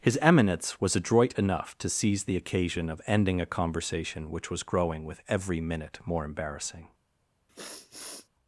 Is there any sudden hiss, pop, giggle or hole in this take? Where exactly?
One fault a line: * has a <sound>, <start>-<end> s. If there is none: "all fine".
* has a sniff, 7.5-8.3 s